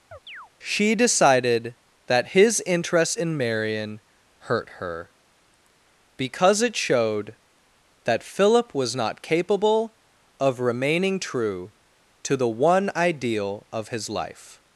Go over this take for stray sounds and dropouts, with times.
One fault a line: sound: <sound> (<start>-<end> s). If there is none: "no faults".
sound: chirp (0.1-0.5 s)